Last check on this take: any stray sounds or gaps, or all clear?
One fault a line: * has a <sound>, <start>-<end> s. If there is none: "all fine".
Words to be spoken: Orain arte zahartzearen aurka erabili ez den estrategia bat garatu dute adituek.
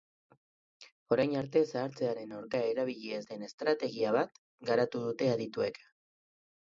all fine